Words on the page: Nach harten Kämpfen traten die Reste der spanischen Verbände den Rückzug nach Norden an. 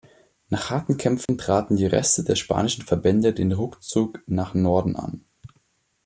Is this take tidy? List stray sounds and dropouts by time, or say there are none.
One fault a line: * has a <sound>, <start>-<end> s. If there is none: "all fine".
* has a dropout, 1.3-1.3 s